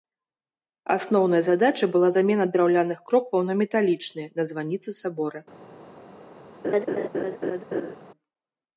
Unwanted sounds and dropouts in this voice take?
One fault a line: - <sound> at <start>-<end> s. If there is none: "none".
- laugh at 6.6-7.9 s